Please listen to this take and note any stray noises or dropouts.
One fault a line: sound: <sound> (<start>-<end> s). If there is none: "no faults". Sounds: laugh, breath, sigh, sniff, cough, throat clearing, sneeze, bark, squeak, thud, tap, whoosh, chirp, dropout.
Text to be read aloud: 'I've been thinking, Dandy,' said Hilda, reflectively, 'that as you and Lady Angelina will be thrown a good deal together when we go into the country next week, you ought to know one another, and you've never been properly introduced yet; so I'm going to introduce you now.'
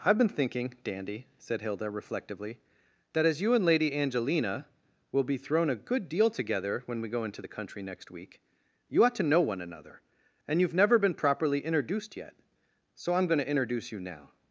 no faults